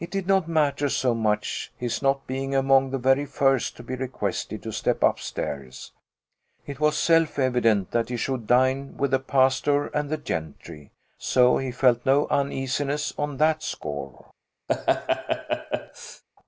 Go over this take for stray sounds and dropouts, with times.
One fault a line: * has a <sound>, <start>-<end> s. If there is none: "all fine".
* has a laugh, 14.7-16.2 s